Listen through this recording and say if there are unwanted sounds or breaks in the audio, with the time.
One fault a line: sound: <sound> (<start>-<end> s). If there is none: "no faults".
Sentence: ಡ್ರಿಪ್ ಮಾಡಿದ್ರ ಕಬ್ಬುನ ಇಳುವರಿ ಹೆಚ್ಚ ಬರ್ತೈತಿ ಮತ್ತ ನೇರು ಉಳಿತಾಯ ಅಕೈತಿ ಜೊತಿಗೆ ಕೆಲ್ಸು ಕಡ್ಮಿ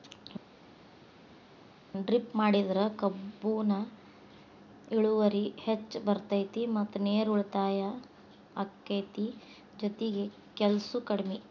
no faults